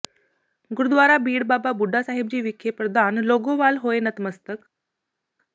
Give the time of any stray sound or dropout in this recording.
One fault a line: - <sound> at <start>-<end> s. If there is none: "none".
none